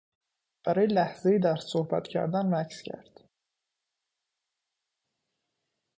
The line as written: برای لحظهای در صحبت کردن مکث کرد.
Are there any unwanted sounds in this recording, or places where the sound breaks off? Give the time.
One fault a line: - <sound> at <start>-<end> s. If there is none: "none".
none